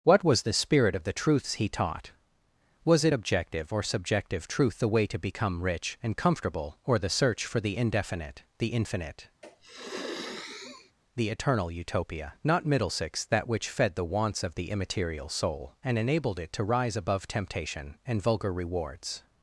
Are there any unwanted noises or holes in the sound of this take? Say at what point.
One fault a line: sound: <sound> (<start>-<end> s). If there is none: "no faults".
sound: sniff (9.4-10.9 s)